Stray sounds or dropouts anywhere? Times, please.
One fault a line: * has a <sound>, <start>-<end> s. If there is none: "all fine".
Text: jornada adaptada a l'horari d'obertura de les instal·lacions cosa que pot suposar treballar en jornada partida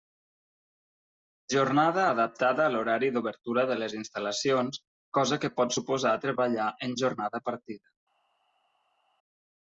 all fine